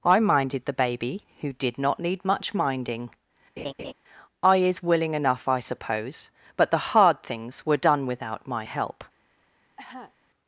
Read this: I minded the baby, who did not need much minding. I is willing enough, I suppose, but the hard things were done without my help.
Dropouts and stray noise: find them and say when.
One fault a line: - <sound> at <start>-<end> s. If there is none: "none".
- laugh at 3.6-3.9 s
- cough at 9.8-10.1 s